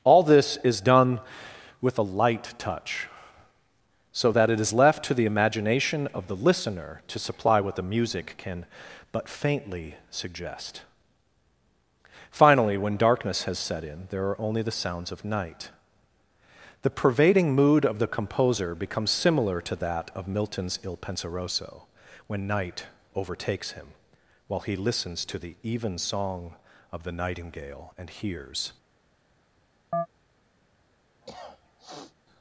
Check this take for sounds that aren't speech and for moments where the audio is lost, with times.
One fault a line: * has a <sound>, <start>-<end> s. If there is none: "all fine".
* has a chirp, 29.9-30.1 s
* has a cough, 31.2-32.2 s